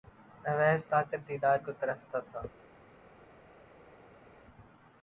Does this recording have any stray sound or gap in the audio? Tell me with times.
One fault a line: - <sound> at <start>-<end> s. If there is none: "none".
none